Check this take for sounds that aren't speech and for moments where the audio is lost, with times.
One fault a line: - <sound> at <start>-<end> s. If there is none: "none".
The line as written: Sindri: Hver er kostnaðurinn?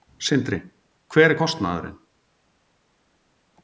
none